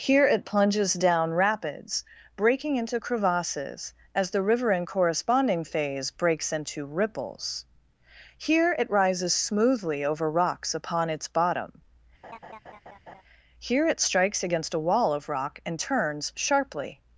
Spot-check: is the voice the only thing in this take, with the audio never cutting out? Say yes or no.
no